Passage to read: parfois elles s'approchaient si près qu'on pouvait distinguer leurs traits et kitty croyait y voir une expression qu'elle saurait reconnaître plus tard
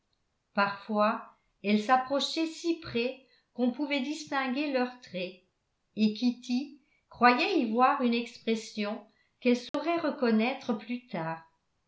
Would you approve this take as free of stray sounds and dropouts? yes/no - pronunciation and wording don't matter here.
no